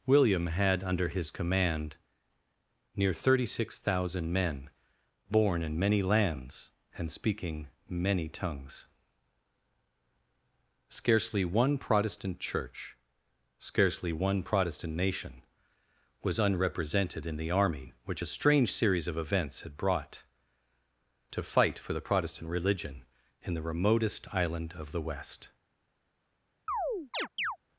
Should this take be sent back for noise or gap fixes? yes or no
yes